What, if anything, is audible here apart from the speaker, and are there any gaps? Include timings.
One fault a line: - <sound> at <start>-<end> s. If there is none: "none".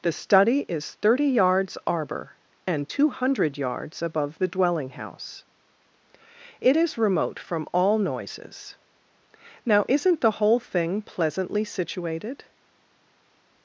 none